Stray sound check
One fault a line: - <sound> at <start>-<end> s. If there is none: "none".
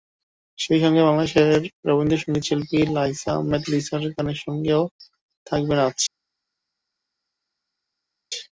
none